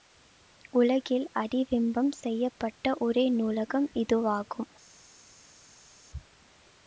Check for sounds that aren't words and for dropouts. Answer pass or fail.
pass